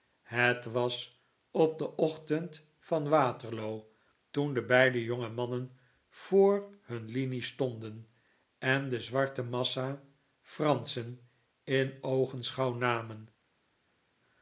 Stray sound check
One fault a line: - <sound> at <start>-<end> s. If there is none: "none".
none